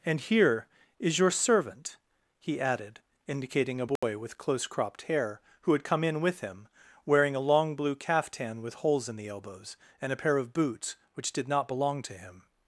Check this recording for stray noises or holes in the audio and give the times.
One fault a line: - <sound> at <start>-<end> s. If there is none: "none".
- dropout at 4.0-4.0 s